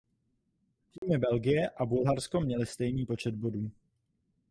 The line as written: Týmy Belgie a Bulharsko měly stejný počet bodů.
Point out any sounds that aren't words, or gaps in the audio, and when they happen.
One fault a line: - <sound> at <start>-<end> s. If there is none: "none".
- dropout at 1.0-1.0 s